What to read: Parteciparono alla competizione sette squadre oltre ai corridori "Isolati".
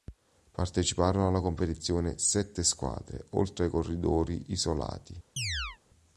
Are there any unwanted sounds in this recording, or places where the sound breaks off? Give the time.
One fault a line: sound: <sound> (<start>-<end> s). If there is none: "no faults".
sound: chirp (5.4-5.8 s)